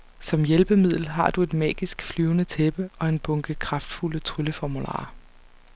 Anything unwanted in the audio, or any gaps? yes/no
no